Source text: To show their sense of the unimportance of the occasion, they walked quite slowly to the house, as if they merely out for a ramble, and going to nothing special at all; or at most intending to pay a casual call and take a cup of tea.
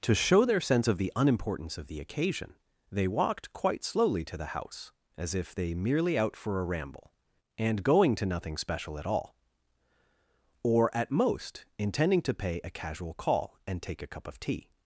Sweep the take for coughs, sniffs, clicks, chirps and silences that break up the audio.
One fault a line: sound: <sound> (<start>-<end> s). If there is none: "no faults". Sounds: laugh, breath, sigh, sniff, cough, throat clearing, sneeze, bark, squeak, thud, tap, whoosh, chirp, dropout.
no faults